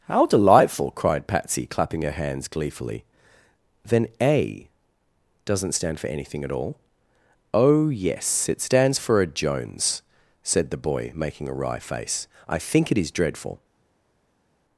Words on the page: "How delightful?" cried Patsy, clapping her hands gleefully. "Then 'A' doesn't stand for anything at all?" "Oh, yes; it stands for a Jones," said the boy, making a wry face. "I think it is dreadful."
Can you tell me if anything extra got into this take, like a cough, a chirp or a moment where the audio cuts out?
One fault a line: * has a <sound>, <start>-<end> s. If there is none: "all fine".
all fine